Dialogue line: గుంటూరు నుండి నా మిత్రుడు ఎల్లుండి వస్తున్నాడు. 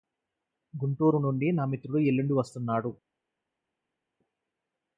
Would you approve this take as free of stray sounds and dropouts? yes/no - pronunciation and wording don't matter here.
yes